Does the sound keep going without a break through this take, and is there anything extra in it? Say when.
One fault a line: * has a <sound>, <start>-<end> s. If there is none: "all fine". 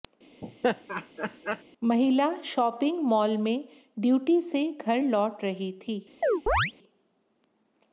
* has a laugh, 0.4-1.6 s
* has a chirp, 6.2-6.7 s